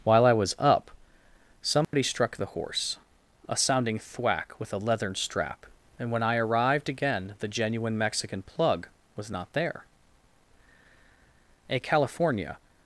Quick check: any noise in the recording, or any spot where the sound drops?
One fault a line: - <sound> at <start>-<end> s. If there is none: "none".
- dropout at 1.8-1.9 s